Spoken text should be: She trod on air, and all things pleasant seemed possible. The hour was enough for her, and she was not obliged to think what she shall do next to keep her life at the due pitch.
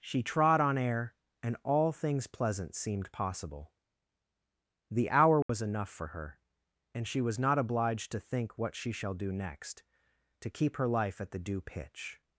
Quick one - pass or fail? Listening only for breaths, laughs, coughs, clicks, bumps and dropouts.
fail